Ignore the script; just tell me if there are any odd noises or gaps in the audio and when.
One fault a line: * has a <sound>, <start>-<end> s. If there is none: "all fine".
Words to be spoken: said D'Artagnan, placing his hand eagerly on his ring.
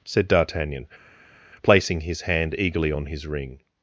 all fine